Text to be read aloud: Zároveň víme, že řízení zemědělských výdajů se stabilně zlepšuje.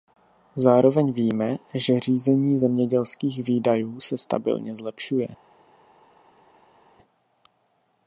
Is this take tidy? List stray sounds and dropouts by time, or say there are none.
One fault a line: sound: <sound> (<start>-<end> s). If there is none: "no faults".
no faults